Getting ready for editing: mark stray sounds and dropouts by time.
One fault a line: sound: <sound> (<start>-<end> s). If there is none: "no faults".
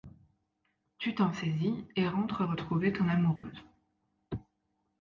sound: dropout (3.4-3.4 s)